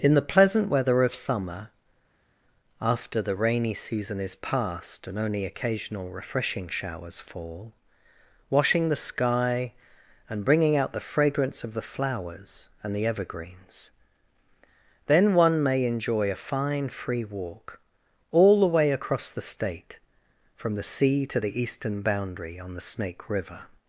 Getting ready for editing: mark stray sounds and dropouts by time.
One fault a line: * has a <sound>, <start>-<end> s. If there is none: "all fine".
all fine